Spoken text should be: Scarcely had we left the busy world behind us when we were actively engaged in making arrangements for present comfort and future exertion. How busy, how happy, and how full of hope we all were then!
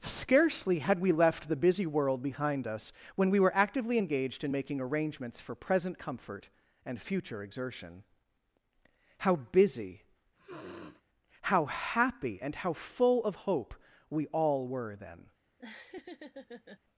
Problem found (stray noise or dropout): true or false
true